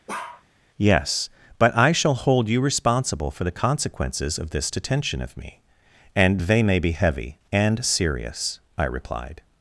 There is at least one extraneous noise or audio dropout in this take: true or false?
true